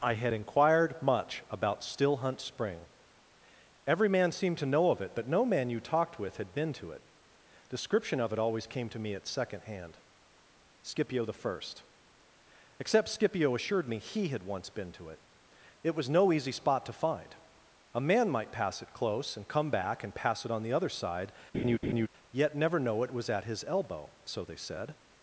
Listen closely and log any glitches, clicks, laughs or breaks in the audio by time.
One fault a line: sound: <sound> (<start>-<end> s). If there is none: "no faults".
sound: laugh (21.5-22.1 s)